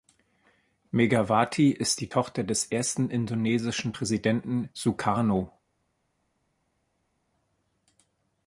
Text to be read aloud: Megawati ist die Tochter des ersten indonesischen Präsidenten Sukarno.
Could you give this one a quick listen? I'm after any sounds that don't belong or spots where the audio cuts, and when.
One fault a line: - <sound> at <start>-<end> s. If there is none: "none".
none